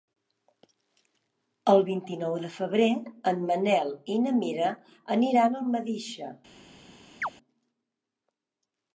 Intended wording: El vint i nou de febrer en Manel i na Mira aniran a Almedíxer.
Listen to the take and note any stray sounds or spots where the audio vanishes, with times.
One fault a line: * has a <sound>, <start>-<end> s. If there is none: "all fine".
* has a chirp, 7.2-7.3 s